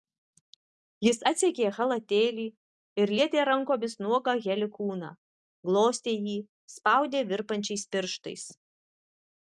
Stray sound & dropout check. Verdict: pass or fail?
pass